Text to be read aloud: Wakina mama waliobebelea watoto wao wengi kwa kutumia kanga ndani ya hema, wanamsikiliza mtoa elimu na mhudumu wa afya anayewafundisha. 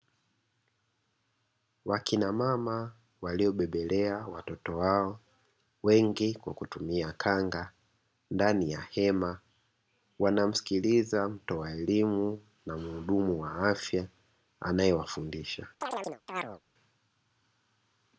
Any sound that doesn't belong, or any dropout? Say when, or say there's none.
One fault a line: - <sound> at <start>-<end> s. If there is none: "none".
- chirp at 15.8-16.6 s